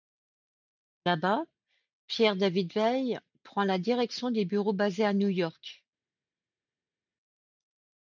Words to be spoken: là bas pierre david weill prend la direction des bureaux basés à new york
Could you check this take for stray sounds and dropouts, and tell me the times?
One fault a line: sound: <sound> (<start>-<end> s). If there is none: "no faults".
no faults